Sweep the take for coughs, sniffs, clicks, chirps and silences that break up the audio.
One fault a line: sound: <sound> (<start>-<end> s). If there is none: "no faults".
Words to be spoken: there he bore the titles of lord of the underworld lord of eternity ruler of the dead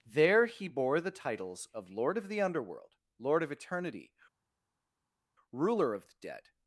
no faults